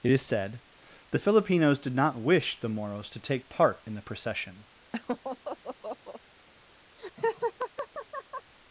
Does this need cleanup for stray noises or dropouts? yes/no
yes